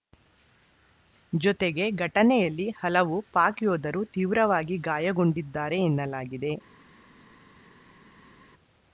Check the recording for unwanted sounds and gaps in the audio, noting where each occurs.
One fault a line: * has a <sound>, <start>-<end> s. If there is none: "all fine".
all fine